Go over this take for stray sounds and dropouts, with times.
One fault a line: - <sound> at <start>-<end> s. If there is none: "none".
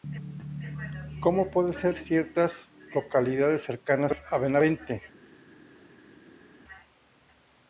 none